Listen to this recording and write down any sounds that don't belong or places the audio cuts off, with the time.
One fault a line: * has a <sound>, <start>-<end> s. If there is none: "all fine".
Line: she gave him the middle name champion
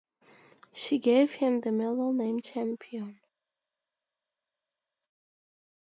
all fine